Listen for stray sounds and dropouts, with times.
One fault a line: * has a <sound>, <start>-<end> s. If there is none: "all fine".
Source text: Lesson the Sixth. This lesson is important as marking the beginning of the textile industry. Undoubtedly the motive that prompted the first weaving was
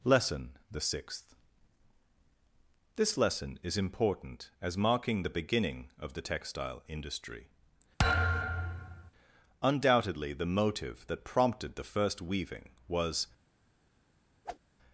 * has a thud, 8.0-9.1 s
* has a whoosh, 14.4-14.6 s